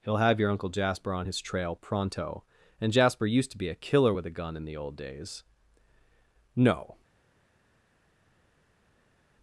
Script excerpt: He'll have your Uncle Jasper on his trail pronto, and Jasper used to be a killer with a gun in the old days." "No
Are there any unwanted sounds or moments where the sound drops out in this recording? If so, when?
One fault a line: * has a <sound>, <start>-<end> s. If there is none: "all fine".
all fine